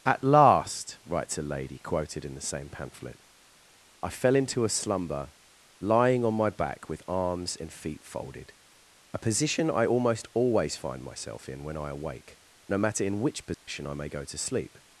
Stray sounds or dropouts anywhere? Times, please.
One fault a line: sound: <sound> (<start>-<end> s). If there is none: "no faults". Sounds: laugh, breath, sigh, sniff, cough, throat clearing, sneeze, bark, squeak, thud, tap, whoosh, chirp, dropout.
sound: dropout (13.5-13.7 s)